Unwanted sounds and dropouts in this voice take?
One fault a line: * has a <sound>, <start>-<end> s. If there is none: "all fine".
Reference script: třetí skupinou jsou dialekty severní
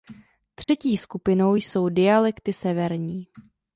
* has a dropout, 0.6-0.7 s